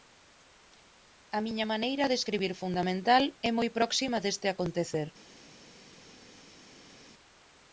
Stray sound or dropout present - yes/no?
no